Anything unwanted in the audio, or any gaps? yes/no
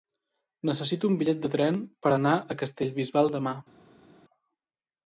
no